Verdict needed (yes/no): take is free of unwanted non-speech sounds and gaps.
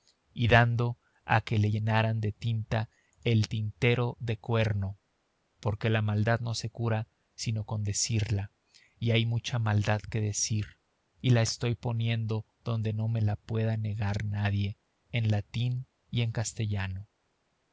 yes